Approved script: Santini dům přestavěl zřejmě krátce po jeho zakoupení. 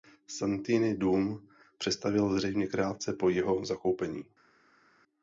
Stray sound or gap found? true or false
false